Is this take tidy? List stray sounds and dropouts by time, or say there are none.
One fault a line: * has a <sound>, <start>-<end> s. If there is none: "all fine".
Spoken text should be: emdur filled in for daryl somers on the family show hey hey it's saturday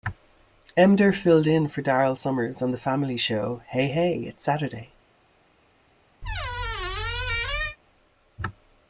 * has a squeak, 6.2-7.8 s